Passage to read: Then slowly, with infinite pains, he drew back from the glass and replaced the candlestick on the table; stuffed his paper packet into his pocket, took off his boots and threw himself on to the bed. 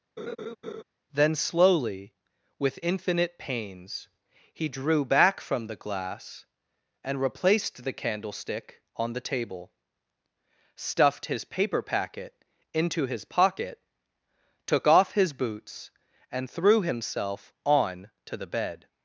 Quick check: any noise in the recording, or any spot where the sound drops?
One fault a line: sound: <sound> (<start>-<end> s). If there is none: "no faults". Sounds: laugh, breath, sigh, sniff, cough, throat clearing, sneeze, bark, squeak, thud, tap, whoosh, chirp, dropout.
sound: laugh (0.2-0.8 s)